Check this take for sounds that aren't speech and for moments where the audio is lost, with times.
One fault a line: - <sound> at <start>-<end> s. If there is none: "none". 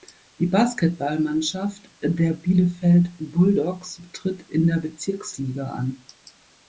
none